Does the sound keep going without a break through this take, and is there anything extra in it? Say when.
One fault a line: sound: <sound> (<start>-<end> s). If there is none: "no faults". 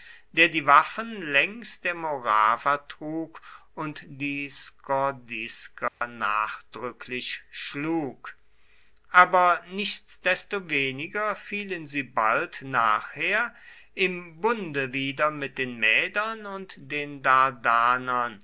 sound: dropout (5.9-6.0 s)